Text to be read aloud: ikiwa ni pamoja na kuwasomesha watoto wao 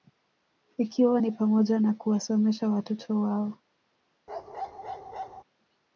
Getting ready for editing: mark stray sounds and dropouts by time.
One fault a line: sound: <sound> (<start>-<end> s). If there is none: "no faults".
sound: bark (4.3-5.4 s)